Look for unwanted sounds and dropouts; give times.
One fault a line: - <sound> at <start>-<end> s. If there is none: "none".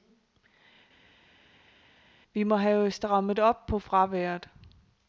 none